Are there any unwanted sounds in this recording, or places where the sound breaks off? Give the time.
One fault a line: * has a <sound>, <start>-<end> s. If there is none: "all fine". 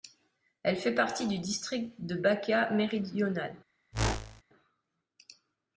* has a whoosh, 3.9-4.4 s